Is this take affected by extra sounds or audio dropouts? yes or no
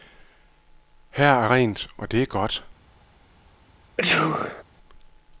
yes